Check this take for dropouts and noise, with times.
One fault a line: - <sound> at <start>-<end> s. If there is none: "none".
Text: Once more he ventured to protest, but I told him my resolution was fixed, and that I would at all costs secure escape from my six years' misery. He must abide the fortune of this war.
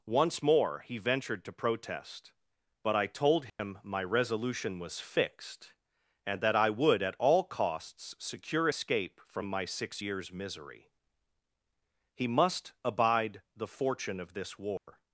- dropout at 3.5-3.6 s
- dropout at 14.8-14.9 s